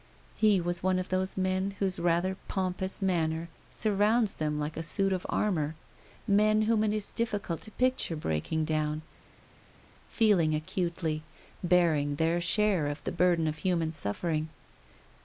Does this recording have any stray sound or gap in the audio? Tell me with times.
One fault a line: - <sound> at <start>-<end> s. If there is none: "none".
none